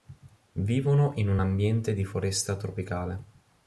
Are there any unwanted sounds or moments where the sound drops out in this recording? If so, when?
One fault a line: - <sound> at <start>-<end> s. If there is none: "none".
none